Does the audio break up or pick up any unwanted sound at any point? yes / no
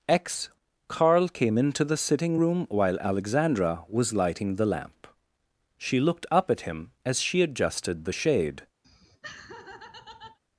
yes